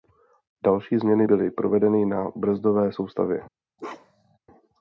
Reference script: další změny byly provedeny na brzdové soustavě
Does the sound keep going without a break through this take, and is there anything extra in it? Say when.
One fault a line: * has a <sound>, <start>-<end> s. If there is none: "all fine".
* has a bark, 3.8-4.4 s